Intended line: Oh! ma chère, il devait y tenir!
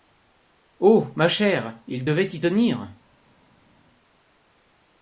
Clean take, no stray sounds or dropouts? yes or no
yes